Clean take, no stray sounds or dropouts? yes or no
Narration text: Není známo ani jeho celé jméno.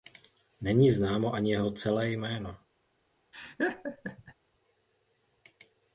no